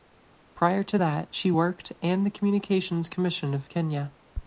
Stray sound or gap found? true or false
false